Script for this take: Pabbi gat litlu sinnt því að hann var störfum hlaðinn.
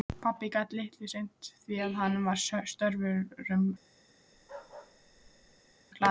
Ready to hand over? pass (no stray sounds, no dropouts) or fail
fail